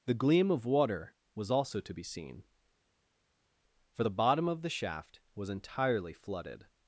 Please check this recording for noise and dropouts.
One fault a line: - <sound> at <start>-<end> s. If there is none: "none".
none